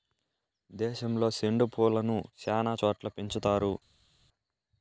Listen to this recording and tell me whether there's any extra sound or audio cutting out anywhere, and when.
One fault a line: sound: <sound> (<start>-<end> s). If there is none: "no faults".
no faults